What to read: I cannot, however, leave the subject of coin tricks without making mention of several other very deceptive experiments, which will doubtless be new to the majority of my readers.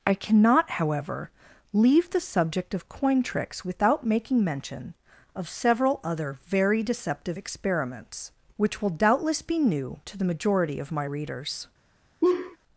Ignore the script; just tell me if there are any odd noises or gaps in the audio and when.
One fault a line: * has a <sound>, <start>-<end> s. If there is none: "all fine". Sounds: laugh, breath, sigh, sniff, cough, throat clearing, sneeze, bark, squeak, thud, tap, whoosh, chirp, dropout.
* has a laugh, 12.2-12.6 s